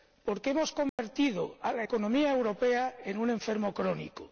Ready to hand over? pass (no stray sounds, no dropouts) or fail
fail